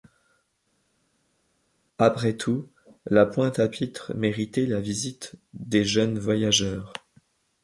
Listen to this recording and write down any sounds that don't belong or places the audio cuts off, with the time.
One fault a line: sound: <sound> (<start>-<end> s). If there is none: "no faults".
no faults